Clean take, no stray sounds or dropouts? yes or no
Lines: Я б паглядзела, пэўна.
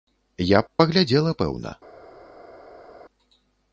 yes